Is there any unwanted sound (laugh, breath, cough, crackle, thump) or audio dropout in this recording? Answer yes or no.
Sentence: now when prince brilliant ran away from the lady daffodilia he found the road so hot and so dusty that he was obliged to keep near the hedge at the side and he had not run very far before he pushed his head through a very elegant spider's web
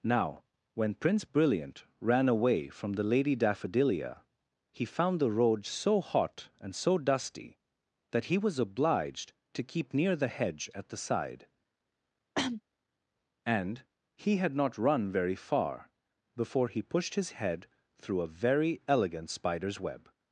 yes